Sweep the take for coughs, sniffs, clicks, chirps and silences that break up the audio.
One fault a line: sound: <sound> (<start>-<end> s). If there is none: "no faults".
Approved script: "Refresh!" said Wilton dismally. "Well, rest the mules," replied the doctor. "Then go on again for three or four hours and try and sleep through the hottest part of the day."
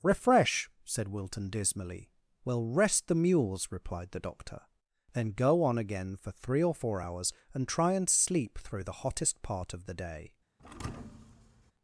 sound: thud (10.6-11.7 s)